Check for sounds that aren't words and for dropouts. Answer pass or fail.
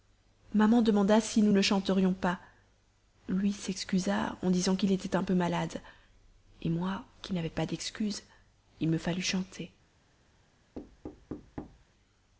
fail